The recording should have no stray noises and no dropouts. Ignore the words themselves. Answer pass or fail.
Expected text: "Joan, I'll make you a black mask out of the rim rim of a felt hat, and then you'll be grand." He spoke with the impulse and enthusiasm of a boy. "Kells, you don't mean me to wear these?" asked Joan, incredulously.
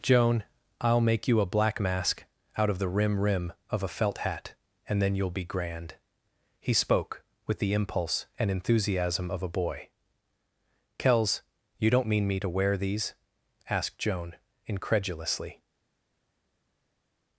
pass